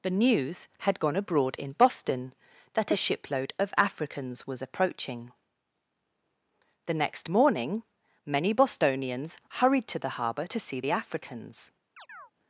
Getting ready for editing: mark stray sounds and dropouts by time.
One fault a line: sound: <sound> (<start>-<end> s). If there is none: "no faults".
sound: chirp (12.0-12.3 s)